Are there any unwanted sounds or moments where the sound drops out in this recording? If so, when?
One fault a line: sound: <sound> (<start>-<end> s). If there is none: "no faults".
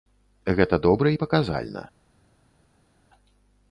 no faults